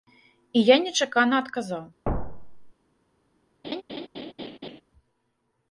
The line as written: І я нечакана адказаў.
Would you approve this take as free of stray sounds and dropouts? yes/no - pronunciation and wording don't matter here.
no